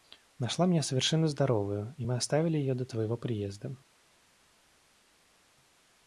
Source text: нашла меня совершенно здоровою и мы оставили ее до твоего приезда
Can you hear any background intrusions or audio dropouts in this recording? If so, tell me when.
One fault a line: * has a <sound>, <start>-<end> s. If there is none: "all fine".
all fine